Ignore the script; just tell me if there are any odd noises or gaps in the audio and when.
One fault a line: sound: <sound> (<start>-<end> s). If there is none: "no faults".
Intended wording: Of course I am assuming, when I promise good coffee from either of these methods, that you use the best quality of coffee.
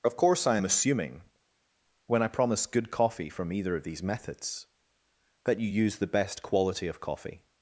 no faults